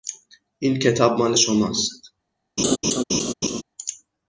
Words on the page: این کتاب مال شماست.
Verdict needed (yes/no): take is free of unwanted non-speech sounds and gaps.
no